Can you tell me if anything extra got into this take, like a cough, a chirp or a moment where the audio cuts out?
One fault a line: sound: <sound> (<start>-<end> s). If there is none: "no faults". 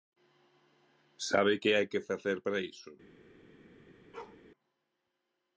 sound: bark (4.1-4.4 s)